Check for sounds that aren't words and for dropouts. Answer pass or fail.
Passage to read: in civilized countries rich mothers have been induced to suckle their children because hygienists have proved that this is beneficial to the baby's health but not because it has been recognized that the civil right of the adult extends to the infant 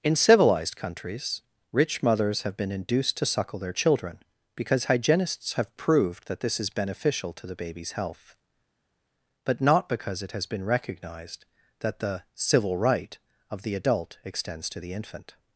pass